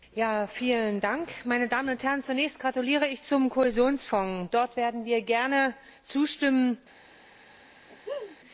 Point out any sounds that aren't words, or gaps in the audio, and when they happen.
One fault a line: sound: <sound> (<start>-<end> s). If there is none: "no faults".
sound: laugh (7.9-8.4 s)